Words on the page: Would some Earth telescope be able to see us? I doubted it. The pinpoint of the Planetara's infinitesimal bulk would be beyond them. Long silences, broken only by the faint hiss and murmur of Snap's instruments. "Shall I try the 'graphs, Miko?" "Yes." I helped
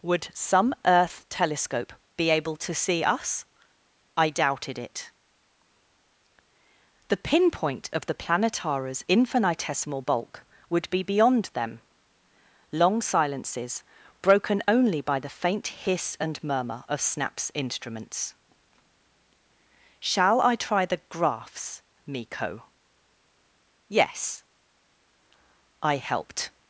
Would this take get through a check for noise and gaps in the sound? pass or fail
pass